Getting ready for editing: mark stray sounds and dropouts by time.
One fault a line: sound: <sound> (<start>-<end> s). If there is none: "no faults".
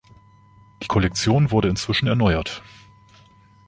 no faults